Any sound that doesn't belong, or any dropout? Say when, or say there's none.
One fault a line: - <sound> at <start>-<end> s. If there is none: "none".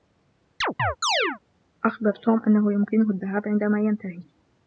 - chirp at 0.6-1.4 s